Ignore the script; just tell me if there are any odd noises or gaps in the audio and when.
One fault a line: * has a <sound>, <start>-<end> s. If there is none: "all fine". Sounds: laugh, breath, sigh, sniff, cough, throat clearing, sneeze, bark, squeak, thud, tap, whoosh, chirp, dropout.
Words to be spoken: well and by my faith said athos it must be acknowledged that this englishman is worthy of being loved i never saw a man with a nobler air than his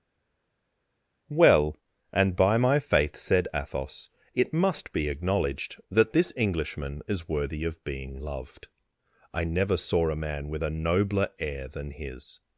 all fine